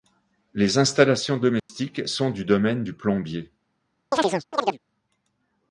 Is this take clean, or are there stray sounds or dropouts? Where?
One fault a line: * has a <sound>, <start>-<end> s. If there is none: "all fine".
* has a dropout, 1.6-1.7 s
* has a chirp, 4.1-4.8 s